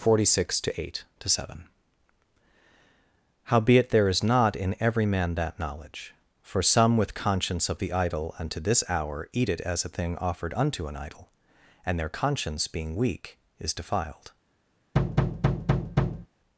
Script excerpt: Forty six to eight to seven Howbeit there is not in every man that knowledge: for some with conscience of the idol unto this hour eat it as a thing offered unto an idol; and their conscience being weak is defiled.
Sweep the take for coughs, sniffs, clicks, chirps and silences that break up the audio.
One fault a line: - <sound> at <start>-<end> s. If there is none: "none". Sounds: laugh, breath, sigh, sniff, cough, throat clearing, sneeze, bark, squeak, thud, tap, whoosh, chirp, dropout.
- thud at 14.9-16.3 s